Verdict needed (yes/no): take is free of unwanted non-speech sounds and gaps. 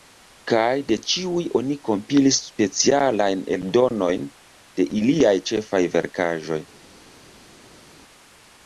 yes